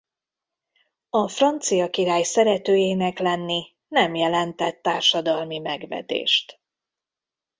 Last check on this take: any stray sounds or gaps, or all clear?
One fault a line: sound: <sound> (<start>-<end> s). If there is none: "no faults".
no faults